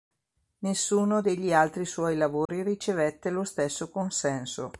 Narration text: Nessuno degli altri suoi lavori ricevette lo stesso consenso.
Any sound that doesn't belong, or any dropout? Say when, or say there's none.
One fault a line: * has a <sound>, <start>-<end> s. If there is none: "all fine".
* has a dropout, 2.5-2.5 s